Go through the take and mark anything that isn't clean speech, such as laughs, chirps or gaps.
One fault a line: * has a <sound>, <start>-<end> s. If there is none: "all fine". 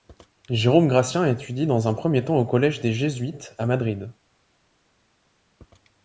all fine